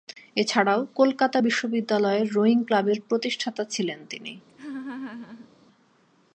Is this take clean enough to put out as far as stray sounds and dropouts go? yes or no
no